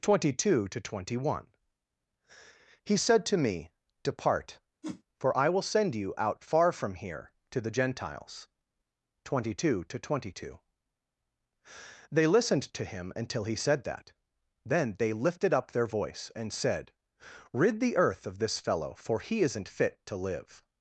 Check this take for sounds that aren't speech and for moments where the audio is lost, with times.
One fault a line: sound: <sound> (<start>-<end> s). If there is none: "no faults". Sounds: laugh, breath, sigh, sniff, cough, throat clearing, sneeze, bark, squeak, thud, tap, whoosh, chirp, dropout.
sound: whoosh (4.8-5.0 s)